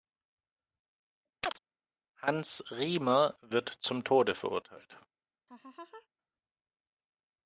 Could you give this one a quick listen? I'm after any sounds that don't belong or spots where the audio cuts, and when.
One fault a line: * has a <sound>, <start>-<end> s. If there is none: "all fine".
* has a chirp, 1.4-1.6 s
* has a laugh, 5.5-6.1 s